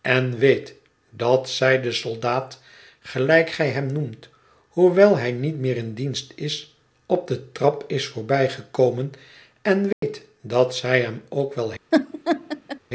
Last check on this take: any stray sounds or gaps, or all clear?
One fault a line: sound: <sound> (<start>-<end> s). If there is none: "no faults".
sound: dropout (9.9-10.0 s)
sound: laugh (11.9-12.8 s)